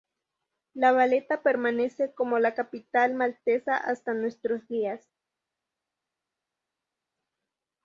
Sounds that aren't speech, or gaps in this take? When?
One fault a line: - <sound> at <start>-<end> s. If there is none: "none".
none